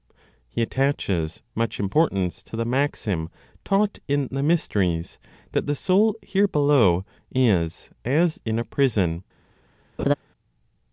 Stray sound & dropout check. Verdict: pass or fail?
fail